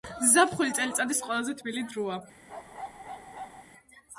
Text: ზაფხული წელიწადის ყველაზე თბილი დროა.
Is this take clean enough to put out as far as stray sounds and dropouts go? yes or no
no